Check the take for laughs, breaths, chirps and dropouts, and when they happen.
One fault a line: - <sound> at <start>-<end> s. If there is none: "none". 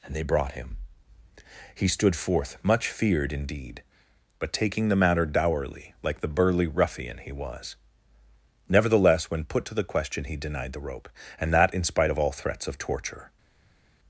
none